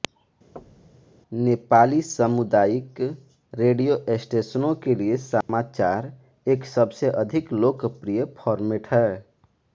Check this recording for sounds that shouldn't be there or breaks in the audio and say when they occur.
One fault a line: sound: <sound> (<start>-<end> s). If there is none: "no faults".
sound: thud (0.6-1.1 s)
sound: dropout (5.4-5.5 s)